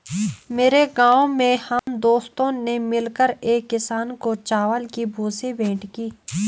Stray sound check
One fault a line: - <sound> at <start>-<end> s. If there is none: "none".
- dropout at 1.8-1.9 s